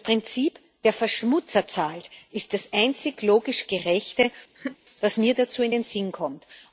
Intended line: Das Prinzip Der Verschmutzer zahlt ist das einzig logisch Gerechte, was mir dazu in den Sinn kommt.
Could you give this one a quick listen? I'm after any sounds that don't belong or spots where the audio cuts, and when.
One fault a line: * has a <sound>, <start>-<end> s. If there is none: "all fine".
* has a laugh, 4.6-4.8 s